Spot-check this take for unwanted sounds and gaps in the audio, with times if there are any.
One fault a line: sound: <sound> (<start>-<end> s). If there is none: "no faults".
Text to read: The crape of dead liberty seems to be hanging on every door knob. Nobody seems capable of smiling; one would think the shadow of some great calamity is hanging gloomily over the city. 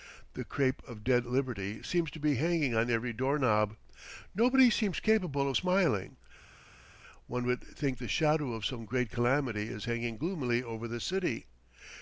no faults